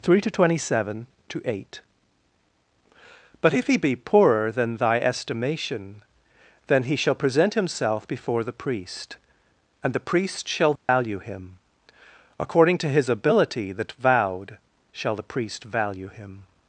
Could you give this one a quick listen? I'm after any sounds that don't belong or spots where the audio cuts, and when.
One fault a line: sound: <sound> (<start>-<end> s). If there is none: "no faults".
sound: dropout (10.8-10.9 s)